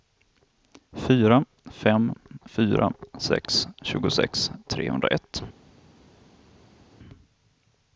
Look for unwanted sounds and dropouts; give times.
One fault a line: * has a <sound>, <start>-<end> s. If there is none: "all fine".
all fine